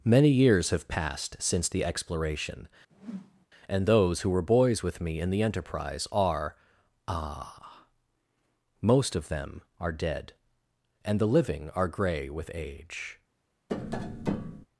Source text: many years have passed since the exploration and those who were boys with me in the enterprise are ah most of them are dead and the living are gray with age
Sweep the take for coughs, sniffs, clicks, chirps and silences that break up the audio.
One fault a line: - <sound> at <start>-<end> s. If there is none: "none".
- whoosh at 2.9-3.5 s
- tap at 13.7-14.7 s